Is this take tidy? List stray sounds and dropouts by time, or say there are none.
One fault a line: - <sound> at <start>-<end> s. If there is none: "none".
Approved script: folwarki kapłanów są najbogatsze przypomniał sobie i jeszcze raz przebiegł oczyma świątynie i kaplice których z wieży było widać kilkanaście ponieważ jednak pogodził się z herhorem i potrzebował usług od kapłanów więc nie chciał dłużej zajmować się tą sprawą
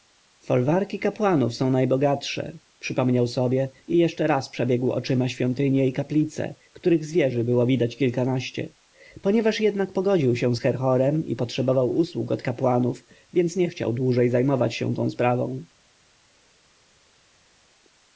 none